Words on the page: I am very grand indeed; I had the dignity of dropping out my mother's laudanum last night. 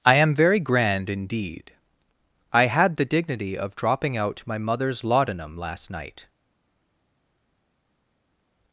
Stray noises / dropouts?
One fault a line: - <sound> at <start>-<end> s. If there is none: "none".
none